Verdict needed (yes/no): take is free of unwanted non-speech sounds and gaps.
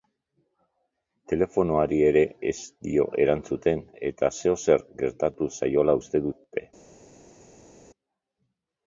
yes